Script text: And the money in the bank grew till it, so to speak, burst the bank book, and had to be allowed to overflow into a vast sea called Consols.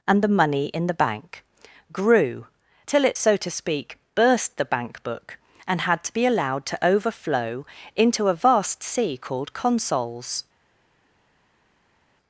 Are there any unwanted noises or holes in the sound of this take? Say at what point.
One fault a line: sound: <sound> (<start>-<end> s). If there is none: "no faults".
no faults